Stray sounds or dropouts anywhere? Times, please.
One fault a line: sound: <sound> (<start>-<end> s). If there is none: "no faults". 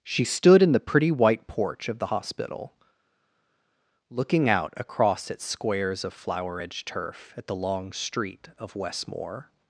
no faults